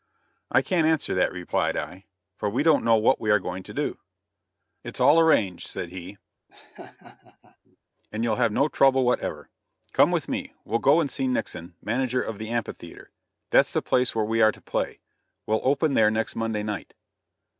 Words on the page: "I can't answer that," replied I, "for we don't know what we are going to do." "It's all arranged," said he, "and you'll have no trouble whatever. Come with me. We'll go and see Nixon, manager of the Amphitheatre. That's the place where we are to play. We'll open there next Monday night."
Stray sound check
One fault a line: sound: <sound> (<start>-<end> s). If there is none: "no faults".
sound: laugh (6.5-7.8 s)